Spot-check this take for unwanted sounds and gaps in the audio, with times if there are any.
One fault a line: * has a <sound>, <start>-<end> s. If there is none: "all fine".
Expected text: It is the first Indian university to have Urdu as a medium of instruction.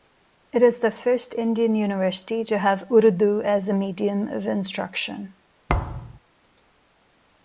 * has a thud, 5.7-6.2 s